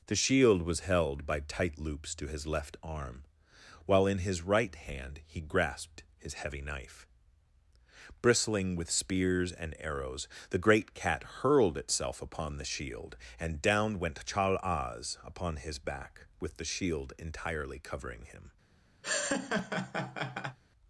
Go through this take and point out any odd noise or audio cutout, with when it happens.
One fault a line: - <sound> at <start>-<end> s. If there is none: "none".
- laugh at 19.0-20.6 s